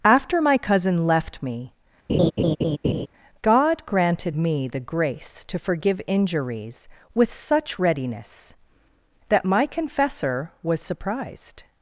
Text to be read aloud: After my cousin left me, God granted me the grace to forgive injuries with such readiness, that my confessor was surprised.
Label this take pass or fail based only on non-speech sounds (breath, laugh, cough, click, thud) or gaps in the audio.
fail